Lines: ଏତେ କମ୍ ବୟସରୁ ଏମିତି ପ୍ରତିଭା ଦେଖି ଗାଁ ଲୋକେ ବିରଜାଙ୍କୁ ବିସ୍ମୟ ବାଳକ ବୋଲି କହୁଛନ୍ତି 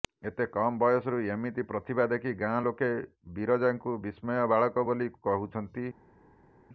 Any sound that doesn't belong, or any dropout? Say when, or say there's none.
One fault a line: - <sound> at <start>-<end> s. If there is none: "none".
none